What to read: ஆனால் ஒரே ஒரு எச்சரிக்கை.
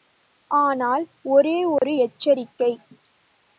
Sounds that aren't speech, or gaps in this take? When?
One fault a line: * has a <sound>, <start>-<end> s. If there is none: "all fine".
* has a dropout, 1.8-1.8 s